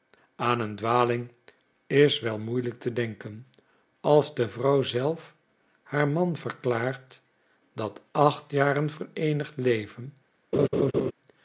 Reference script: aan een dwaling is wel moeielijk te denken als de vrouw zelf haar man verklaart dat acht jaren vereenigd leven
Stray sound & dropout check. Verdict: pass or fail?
fail